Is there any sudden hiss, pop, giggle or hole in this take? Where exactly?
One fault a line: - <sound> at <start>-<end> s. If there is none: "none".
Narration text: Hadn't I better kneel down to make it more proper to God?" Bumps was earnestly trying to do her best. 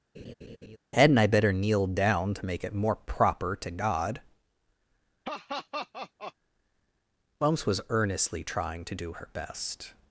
- laugh at 0.1-0.8 s
- laugh at 5.2-6.3 s